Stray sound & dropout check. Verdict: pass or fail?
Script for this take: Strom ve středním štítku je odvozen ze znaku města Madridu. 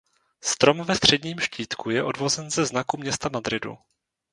pass